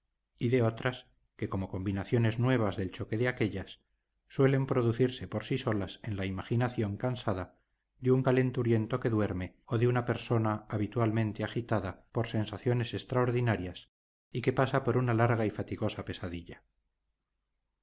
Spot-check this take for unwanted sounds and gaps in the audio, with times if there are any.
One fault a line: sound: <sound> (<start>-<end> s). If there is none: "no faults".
no faults